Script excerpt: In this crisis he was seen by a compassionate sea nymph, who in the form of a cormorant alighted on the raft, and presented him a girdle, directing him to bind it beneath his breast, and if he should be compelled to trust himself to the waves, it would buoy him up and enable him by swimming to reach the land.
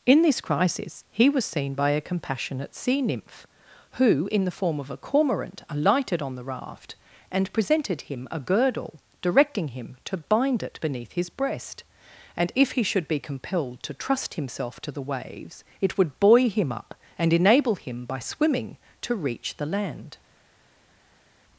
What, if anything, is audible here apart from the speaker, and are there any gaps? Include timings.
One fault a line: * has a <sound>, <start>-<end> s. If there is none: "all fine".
all fine